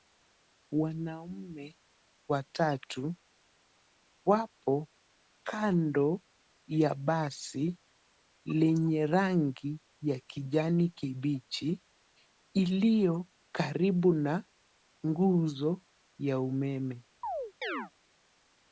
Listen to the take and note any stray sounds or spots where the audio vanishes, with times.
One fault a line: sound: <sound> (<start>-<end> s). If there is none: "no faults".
sound: chirp (17.2-17.9 s)